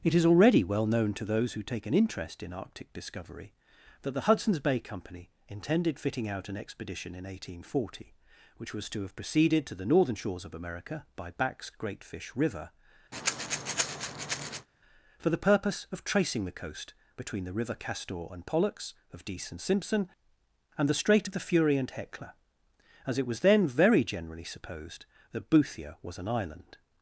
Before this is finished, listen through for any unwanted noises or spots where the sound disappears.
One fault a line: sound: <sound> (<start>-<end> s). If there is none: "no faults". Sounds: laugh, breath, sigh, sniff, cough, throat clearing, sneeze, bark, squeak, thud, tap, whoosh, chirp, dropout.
sound: breath (13.1-14.7 s)